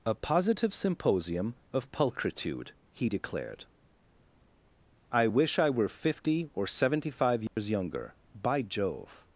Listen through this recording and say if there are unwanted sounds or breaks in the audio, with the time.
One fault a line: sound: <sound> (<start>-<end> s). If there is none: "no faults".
sound: dropout (7.5-7.6 s)